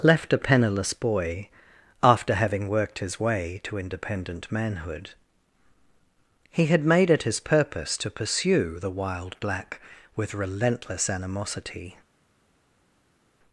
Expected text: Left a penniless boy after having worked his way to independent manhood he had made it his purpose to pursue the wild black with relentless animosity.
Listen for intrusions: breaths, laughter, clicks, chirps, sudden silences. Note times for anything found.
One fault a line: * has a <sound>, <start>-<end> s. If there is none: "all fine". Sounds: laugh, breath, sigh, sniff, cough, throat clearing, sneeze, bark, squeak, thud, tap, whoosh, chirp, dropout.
all fine